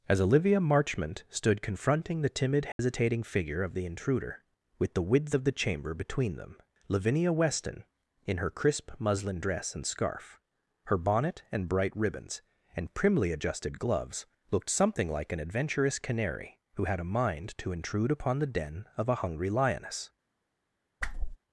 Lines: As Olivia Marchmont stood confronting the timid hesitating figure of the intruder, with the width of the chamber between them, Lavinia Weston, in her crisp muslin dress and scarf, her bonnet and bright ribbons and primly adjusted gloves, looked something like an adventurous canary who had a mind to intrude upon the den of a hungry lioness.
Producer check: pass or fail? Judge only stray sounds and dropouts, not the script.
fail